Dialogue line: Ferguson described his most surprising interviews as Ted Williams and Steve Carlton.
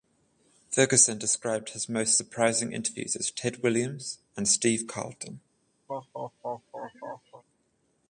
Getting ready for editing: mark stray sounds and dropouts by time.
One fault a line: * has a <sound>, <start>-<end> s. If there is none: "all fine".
* has a laugh, 5.9-7.4 s